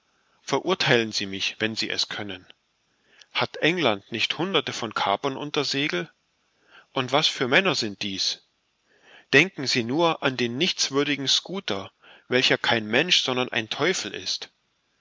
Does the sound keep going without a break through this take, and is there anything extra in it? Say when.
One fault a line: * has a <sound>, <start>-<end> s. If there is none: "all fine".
all fine